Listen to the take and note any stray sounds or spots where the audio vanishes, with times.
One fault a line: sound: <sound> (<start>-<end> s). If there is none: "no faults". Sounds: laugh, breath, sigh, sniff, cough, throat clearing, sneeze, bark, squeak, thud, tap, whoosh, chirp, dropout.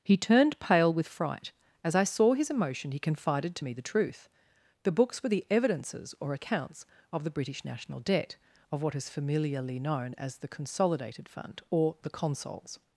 no faults